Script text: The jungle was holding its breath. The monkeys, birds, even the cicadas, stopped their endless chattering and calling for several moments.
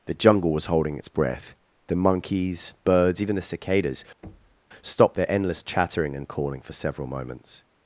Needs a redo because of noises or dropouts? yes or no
yes